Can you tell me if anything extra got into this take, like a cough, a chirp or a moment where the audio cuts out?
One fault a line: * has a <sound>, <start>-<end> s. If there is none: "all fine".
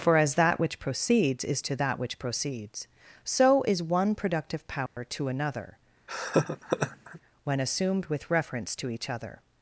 * has a dropout, 4.9-5.0 s
* has a laugh, 6.1-7.2 s